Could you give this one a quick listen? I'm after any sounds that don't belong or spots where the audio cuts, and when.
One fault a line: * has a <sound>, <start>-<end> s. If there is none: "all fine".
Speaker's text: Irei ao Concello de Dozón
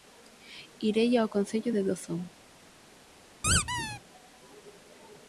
* has a squeak, 3.4-4.0 s